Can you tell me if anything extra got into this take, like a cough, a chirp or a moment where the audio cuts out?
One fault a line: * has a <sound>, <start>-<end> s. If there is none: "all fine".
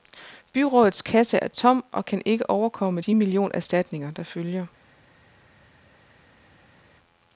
all fine